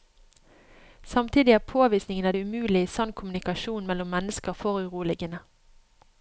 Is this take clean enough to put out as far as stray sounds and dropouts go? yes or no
yes